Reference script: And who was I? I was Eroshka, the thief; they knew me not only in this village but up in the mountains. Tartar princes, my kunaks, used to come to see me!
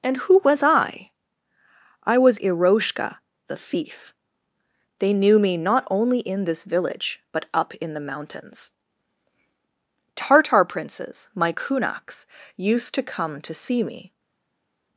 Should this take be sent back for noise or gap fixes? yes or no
no